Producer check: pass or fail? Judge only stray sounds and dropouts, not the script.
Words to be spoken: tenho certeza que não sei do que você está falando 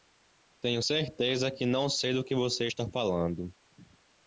pass